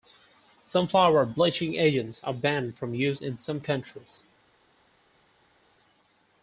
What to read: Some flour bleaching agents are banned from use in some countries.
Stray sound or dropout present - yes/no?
no